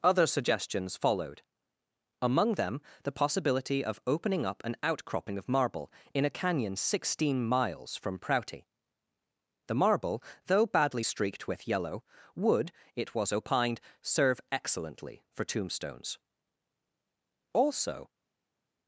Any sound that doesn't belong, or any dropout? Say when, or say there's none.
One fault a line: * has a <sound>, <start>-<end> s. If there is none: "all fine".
all fine